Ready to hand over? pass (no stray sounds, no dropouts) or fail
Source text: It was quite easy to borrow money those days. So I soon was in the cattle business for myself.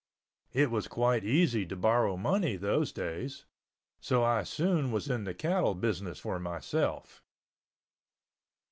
pass